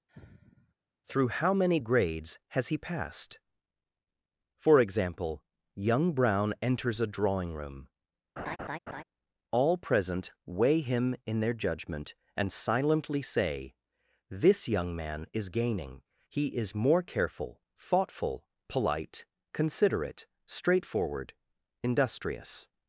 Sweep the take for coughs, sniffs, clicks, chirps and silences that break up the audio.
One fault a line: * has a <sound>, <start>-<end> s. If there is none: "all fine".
* has a sigh, 0.1-0.7 s
* has a laugh, 8.4-9.0 s